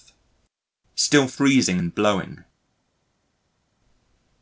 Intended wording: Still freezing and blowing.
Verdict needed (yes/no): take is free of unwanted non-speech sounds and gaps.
yes